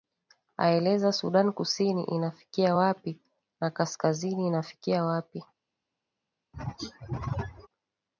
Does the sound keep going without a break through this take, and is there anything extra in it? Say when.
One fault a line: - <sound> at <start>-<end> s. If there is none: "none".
- throat clearing at 6.5-7.7 s